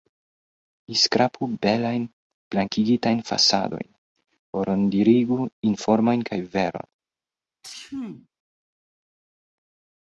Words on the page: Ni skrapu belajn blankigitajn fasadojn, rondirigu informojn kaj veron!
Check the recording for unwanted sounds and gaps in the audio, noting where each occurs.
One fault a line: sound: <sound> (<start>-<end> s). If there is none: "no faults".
sound: sneeze (7.6-8.3 s)